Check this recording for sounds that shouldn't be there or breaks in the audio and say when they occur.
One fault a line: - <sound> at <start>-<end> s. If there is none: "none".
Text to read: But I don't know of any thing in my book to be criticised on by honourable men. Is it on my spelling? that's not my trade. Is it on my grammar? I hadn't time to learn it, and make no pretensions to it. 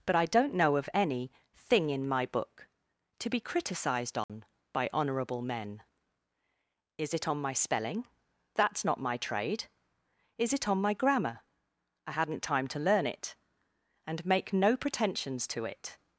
- dropout at 4.2-4.3 s